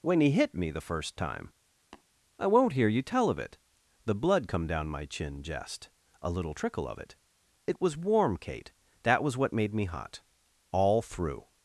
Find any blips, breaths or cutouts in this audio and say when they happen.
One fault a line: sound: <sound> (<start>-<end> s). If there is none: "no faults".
sound: tap (1.9-2.0 s)